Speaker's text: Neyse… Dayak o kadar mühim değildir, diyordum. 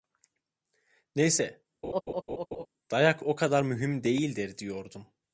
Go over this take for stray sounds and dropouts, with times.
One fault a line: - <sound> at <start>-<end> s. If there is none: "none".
- laugh at 1.8-2.7 s